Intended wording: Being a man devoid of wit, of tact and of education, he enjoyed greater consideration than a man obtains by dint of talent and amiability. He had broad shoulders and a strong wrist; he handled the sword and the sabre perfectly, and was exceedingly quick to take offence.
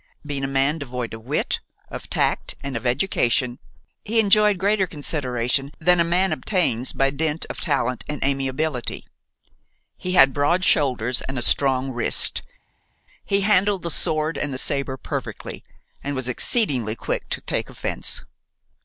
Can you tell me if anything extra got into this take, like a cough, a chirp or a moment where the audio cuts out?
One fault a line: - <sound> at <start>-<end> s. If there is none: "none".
none